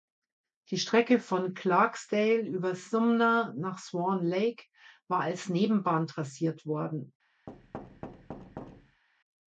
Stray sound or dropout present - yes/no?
yes